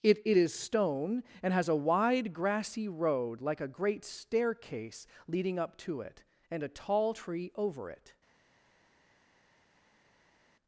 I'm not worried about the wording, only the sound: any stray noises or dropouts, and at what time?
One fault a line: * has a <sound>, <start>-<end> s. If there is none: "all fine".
all fine